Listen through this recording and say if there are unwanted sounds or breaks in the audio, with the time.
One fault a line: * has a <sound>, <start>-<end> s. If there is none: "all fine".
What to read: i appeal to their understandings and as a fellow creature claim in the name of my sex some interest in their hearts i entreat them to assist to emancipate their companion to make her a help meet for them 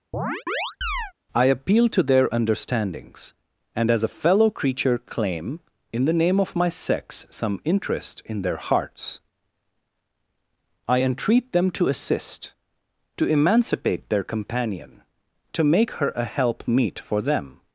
* has a chirp, 0.1-1.1 s